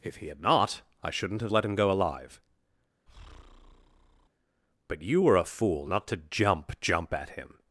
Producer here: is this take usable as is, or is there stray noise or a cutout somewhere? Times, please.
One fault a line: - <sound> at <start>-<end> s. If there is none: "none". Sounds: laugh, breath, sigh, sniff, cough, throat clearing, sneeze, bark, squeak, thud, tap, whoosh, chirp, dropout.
- breath at 3.1-4.3 s